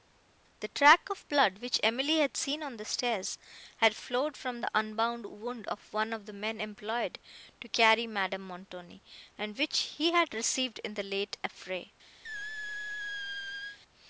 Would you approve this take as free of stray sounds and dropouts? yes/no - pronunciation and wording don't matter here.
no